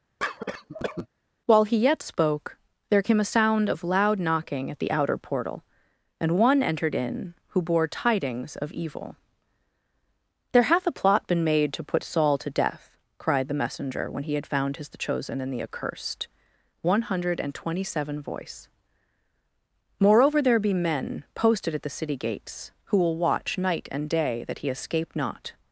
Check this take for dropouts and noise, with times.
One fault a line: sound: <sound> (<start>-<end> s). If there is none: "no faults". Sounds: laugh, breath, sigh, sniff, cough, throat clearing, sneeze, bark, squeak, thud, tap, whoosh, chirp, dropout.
sound: cough (0.2-1.1 s)